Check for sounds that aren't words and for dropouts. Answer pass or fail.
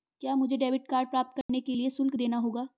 fail